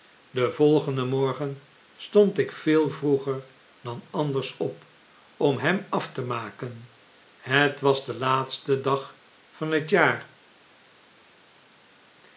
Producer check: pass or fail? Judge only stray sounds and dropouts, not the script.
pass